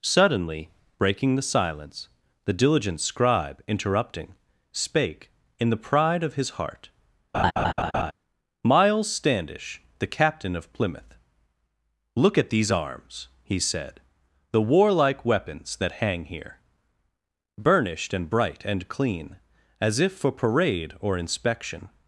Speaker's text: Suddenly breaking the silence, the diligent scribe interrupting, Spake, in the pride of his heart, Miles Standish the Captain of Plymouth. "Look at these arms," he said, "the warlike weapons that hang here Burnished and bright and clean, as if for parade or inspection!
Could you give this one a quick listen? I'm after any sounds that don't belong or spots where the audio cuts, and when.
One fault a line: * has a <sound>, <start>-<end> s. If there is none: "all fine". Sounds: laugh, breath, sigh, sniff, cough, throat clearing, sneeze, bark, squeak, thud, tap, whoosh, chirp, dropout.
* has a laugh, 7.3-8.1 s